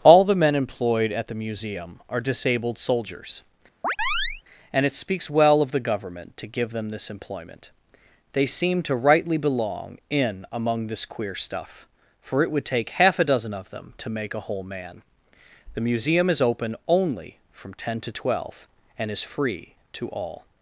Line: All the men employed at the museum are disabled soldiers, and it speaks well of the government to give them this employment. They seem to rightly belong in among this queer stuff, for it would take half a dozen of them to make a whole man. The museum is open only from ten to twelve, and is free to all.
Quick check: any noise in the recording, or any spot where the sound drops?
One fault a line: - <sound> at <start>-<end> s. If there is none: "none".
- chirp at 3.8-4.4 s